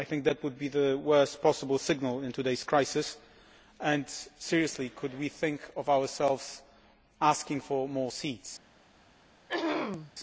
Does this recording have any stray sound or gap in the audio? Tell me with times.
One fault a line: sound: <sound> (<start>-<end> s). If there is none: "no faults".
sound: throat clearing (9.5-10.1 s)